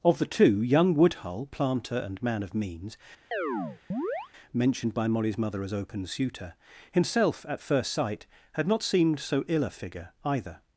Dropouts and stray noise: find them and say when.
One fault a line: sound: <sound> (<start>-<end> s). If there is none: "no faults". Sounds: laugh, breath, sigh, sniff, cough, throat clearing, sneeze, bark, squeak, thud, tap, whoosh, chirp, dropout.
sound: chirp (3.3-4.3 s)